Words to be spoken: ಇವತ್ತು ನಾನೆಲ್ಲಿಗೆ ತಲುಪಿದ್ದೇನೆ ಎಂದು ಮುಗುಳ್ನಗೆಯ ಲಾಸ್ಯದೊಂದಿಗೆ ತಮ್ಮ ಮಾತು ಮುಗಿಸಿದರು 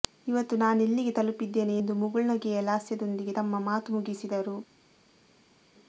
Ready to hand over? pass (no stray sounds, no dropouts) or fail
pass